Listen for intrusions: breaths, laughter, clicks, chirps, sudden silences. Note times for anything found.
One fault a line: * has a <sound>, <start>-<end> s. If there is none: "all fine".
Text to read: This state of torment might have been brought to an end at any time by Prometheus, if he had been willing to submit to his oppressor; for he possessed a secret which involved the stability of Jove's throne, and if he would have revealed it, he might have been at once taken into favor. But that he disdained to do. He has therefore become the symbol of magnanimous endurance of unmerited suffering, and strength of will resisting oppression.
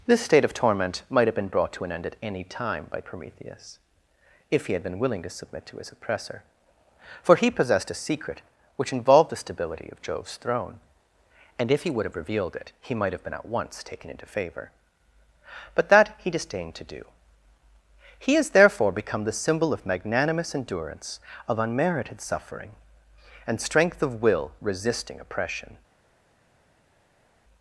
all fine